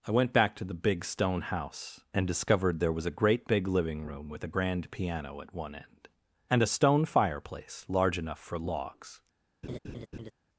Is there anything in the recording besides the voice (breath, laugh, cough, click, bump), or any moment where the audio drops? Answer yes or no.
yes